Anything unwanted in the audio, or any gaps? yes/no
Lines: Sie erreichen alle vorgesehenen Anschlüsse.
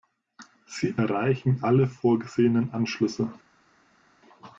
no